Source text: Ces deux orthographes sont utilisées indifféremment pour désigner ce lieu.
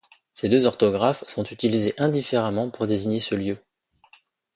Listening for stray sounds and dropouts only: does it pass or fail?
pass